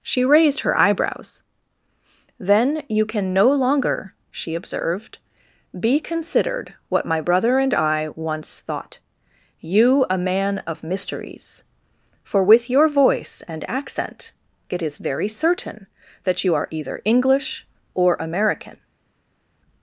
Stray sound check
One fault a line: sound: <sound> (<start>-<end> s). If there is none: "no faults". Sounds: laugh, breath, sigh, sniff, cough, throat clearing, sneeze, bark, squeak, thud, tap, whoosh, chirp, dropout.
no faults